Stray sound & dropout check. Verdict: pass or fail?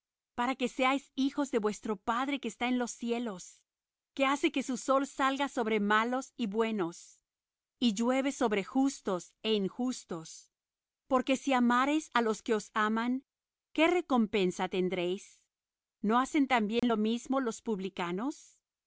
fail